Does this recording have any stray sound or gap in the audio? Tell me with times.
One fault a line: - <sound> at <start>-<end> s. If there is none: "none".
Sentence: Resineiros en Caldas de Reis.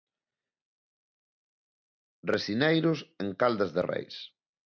none